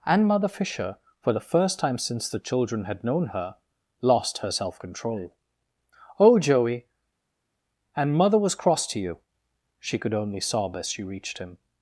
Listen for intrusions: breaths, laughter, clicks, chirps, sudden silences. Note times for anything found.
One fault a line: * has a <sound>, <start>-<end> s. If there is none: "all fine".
all fine